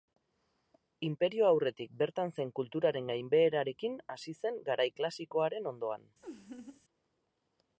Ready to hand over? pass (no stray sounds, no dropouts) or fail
fail